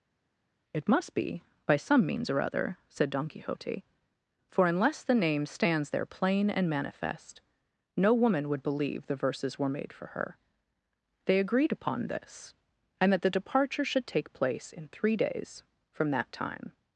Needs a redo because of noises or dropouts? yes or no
no